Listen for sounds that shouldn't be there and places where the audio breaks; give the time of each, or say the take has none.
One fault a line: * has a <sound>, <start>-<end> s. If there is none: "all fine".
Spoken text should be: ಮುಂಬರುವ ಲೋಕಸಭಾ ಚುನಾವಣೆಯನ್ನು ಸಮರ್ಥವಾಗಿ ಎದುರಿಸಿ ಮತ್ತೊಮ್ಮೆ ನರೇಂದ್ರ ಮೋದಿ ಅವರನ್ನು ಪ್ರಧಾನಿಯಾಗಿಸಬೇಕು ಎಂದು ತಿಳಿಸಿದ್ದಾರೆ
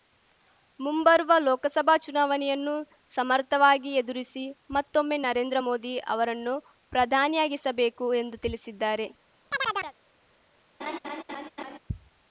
* has a chirp, 9.5-9.9 s
* has a laugh, 10.8-11.8 s